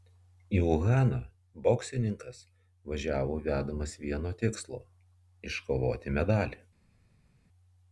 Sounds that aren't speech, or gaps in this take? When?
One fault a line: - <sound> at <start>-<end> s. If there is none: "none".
none